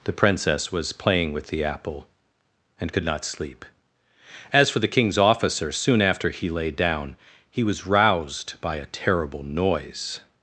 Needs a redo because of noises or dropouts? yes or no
no